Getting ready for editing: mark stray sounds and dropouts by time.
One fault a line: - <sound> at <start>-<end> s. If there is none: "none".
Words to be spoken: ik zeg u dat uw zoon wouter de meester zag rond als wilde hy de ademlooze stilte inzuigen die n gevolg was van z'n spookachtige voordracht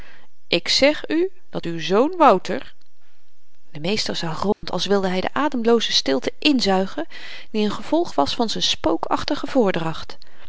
- dropout at 4.5-4.6 s